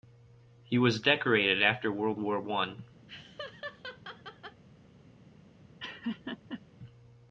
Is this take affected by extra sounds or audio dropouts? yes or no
yes